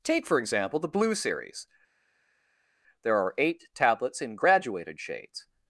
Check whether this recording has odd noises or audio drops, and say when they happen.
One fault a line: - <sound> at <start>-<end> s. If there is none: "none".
none